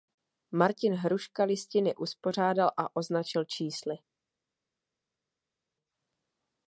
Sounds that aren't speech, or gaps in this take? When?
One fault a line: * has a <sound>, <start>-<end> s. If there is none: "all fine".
all fine